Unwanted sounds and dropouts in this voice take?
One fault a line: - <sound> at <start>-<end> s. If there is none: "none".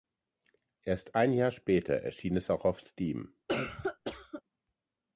- cough at 3.5-4.4 s